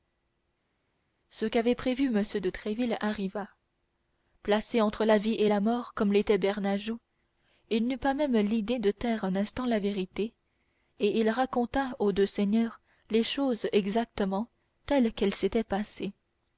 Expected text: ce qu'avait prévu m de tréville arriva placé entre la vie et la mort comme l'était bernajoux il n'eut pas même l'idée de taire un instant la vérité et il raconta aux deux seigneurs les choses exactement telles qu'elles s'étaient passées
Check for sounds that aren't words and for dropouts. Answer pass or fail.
pass